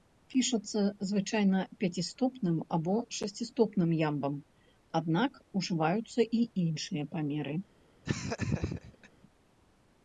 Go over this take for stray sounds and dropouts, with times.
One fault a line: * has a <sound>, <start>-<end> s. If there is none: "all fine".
* has a laugh, 8.0-9.1 s